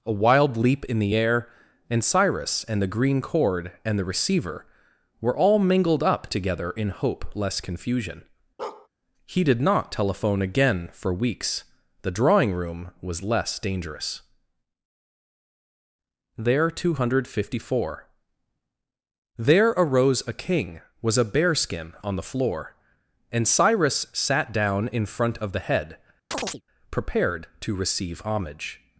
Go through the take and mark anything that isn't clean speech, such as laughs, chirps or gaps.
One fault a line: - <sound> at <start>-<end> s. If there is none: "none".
- bark at 8.6-8.9 s
- chirp at 26.3-26.6 s